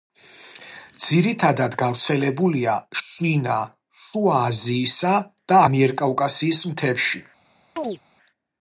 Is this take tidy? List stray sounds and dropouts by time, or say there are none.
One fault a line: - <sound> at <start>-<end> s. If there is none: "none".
- chirp at 7.8-8.0 s